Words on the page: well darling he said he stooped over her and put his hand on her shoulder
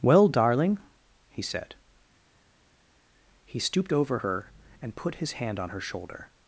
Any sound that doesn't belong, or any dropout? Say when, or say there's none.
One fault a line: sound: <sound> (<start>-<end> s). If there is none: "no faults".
no faults